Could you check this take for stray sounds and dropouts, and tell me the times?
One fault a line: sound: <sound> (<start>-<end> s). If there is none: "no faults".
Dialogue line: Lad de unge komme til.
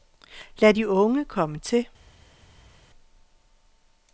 no faults